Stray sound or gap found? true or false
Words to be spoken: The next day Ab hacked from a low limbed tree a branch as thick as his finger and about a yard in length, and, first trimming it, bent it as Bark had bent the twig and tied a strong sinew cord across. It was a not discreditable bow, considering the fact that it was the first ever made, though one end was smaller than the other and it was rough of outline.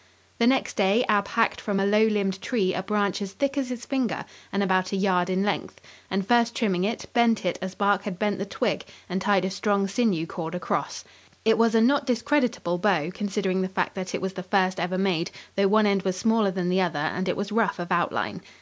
false